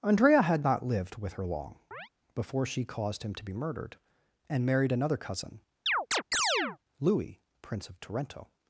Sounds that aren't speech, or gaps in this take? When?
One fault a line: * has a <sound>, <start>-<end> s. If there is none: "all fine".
* has a chirp, 1.9-2.1 s
* has a chirp, 5.9-6.8 s